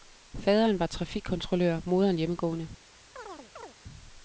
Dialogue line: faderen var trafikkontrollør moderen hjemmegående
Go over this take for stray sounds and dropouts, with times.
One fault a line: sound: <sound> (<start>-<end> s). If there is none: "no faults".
sound: chirp (3.1-3.7 s)